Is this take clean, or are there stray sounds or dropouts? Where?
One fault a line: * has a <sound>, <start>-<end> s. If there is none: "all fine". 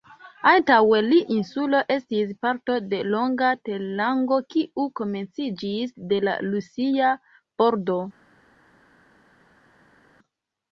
all fine